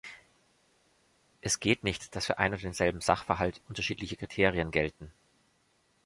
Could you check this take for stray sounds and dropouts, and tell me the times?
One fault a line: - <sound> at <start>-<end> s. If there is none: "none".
none